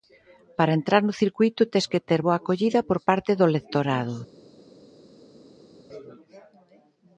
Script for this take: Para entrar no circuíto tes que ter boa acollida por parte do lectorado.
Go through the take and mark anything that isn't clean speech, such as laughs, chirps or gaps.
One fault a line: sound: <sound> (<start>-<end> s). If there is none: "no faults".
no faults